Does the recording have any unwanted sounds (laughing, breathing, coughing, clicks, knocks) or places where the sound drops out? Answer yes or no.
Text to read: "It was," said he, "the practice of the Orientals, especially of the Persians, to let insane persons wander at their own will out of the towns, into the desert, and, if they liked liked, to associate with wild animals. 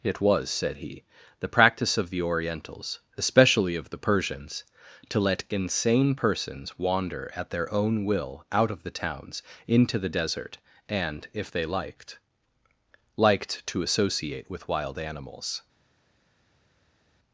no